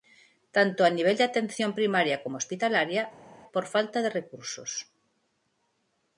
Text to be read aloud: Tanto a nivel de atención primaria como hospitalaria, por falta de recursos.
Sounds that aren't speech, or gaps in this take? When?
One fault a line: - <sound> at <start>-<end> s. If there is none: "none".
none